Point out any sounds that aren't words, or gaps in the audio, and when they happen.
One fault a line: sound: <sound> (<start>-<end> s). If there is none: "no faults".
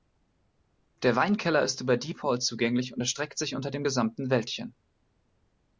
no faults